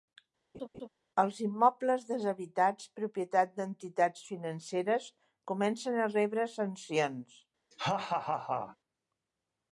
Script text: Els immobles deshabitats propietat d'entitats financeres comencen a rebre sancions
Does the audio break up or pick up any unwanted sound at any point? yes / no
yes